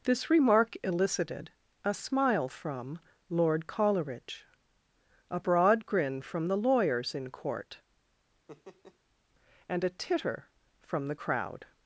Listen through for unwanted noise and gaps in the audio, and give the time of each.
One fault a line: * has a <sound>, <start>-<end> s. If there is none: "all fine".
* has a laugh, 8.5-9.0 s